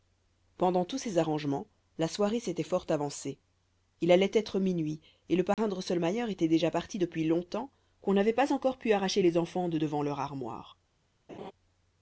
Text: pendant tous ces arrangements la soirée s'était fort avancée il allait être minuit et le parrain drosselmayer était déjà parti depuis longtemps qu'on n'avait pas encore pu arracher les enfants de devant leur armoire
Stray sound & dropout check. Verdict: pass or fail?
fail